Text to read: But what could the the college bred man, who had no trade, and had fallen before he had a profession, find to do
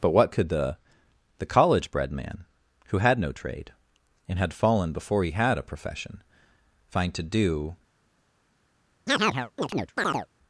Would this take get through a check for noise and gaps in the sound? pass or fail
fail